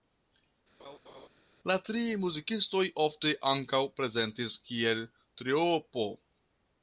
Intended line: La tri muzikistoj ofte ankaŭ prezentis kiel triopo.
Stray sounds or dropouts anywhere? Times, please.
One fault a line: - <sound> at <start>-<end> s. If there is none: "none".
- laugh at 0.8-1.3 s